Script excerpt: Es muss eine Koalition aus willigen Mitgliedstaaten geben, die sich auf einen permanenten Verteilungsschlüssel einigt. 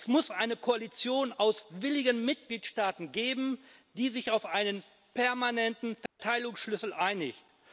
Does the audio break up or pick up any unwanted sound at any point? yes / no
yes